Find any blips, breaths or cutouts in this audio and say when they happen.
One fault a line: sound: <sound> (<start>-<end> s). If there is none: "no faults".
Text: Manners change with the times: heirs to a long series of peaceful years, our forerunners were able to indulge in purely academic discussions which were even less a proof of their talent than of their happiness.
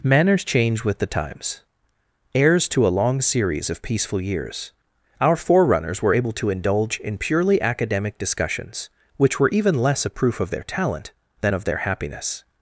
no faults